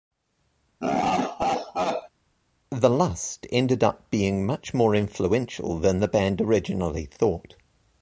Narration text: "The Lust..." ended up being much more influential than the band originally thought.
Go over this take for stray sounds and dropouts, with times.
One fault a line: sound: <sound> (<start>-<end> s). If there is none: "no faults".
sound: laugh (0.8-2.1 s)